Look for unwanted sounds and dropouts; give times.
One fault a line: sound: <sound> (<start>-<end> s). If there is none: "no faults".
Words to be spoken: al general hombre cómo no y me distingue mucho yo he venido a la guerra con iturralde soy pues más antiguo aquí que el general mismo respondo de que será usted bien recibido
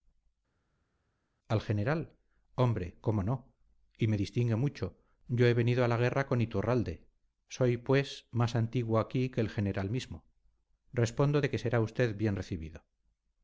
no faults